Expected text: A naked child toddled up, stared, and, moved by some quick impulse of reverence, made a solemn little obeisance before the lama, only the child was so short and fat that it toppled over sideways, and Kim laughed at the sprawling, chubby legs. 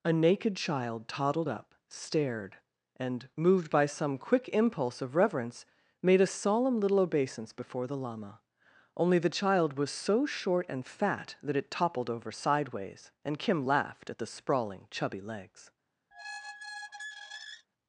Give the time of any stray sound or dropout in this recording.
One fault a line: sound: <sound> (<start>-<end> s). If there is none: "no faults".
sound: squeak (16.1-17.7 s)